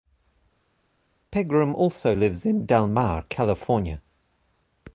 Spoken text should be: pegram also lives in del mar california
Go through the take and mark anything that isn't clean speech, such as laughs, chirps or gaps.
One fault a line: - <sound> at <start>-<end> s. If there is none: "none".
none